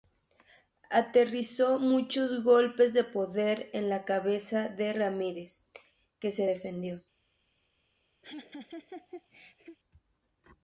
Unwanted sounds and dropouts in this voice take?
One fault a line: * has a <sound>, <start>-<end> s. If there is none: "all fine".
* has a laugh, 8.2-9.8 s